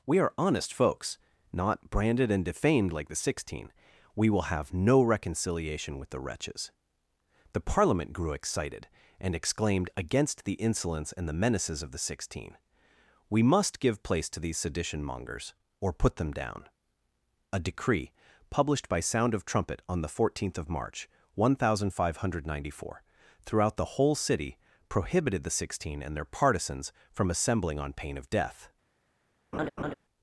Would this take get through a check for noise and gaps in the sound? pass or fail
fail